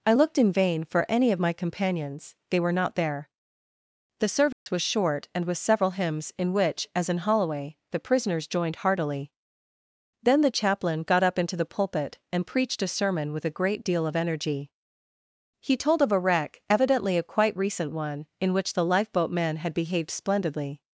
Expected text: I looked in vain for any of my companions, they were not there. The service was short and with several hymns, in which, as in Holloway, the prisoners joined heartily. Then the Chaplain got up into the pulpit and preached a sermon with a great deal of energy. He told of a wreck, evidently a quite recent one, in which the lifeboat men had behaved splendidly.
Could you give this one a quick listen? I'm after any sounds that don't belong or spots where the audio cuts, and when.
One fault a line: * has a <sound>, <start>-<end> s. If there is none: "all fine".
* has a dropout, 4.5-4.7 s